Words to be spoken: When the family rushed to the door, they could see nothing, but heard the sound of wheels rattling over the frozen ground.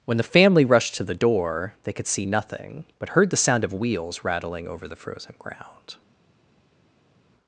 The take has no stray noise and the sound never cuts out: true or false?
true